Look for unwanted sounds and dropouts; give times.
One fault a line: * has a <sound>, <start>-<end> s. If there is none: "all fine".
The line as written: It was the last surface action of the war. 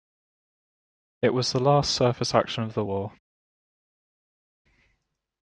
all fine